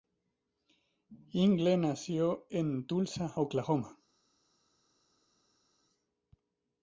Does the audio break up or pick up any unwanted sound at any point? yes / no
no